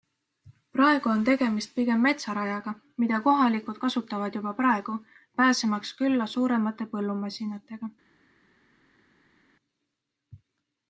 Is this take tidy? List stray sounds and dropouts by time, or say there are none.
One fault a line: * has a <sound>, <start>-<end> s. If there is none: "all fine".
all fine